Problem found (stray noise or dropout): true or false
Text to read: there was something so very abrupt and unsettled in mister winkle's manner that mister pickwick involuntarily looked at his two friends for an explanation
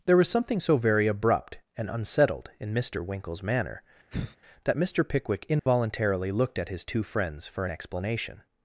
true